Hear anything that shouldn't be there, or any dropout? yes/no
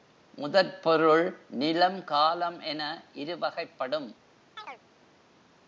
yes